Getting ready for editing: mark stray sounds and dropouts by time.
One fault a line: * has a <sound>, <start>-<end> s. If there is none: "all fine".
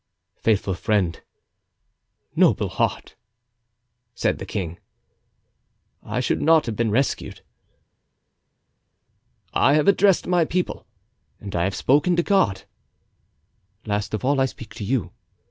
all fine